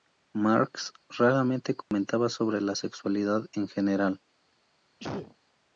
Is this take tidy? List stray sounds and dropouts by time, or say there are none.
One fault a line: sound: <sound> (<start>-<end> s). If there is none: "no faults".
sound: dropout (1.8-1.9 s)
sound: sneeze (5.0-5.4 s)